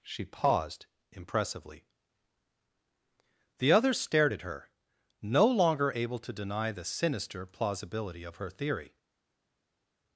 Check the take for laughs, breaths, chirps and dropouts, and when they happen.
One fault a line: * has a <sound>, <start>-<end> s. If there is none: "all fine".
all fine